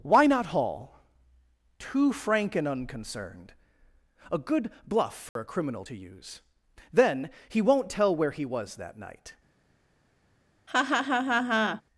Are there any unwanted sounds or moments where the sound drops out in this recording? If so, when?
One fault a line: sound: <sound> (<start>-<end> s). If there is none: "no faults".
sound: dropout (5.3-5.4 s)
sound: laugh (10.7-11.8 s)